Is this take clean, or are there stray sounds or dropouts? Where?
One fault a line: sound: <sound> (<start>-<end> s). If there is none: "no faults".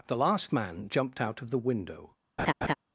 sound: laugh (2.4-2.7 s)